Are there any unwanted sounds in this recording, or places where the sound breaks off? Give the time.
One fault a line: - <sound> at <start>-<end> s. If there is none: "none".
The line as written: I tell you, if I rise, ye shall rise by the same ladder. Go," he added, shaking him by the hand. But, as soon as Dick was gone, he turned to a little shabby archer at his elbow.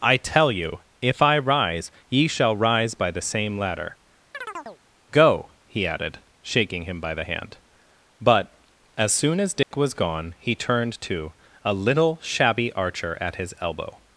- chirp at 4.3-4.8 s
- dropout at 9.6-9.7 s